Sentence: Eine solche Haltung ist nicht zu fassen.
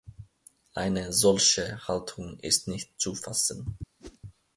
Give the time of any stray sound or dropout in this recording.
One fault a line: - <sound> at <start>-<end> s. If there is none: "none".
- whoosh at 4.0-4.2 s